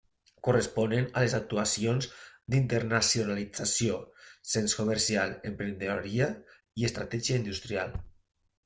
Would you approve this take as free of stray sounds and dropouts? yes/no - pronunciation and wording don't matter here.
yes